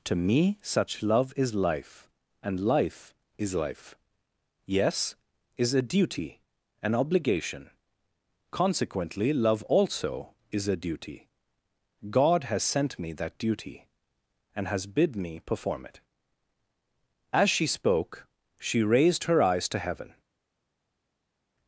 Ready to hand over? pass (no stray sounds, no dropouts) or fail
pass